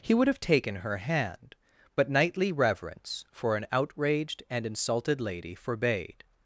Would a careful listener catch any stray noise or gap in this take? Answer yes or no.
no